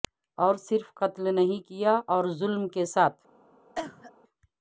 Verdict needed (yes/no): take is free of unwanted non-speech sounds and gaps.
no